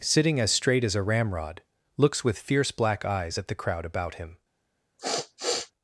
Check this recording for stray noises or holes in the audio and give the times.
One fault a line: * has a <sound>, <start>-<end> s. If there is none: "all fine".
* has a sniff, 5.0-5.7 s